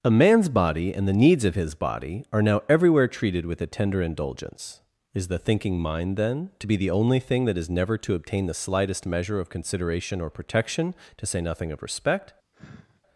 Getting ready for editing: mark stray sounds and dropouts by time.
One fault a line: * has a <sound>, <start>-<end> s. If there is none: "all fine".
* has a sigh, 12.5-13.0 s